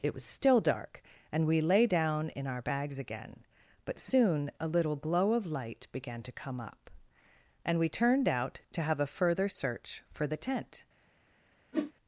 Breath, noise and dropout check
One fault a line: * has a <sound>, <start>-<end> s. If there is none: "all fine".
* has a whoosh, 11.7-11.9 s